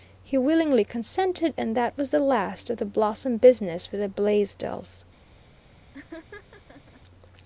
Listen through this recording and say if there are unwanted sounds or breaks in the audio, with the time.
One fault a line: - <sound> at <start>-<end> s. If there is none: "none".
- laugh at 5.9-7.0 s